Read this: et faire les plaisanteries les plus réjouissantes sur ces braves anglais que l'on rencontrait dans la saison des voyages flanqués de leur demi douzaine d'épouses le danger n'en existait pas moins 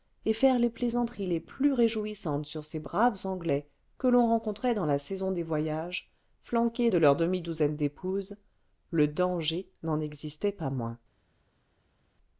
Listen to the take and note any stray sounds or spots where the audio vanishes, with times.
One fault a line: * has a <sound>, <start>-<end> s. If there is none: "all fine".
all fine